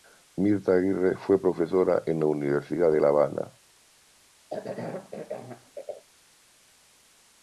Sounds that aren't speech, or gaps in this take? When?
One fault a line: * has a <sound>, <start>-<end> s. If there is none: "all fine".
* has a cough, 4.5-6.0 s